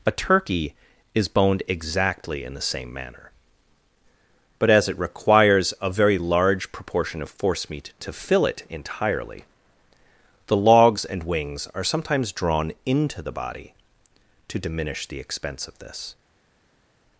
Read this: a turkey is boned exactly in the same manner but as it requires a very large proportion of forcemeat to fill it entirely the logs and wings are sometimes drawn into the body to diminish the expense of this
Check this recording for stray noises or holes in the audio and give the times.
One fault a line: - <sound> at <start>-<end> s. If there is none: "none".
none